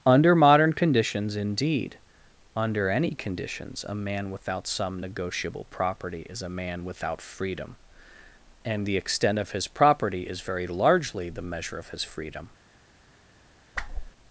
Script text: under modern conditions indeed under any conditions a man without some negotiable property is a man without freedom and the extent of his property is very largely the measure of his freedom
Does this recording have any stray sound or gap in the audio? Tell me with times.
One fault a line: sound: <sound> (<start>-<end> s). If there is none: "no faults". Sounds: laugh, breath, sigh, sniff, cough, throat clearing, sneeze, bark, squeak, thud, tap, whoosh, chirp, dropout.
sound: whoosh (13.7-14.1 s)